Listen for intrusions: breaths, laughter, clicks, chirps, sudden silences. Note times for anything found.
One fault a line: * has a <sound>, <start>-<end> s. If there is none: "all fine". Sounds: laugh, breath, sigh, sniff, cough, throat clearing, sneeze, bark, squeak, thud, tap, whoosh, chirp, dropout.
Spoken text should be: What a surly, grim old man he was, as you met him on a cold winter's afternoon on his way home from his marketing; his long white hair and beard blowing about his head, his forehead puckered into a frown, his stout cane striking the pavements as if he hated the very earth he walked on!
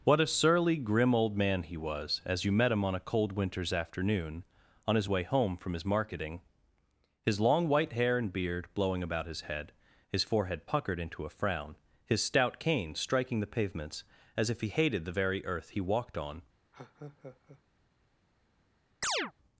* has a laugh, 16.7-17.6 s
* has a chirp, 19.0-19.3 s